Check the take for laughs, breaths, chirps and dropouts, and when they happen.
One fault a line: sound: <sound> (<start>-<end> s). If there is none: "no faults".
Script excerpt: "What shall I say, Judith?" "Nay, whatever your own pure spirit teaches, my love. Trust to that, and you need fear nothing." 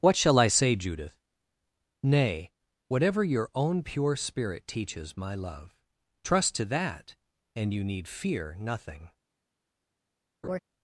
sound: laugh (10.4-10.6 s)